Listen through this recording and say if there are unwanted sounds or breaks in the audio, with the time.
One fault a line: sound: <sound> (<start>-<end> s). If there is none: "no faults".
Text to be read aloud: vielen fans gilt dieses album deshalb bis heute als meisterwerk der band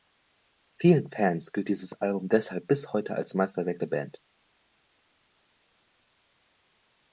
no faults